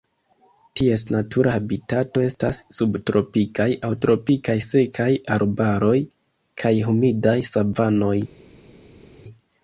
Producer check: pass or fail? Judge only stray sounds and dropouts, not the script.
pass